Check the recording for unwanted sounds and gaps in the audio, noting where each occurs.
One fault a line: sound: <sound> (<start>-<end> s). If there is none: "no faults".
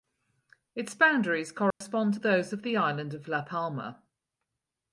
sound: dropout (1.7-1.8 s)